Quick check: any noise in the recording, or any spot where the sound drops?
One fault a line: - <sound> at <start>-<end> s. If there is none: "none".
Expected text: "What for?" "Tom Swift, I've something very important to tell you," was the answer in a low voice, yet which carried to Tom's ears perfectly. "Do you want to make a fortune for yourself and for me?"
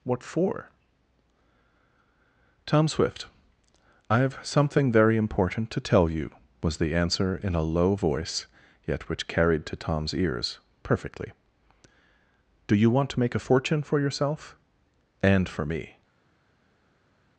none